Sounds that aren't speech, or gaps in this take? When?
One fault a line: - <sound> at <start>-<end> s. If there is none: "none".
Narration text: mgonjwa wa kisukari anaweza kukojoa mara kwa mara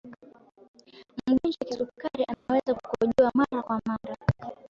- dropout at 2.3-2.5 s